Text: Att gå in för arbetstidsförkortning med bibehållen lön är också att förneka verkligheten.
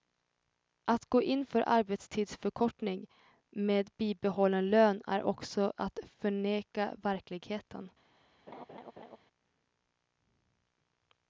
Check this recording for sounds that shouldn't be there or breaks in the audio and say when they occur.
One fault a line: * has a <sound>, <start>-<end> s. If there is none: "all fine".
* has a laugh, 8.5-9.2 s